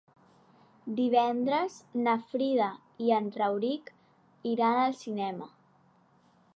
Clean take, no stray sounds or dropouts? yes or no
yes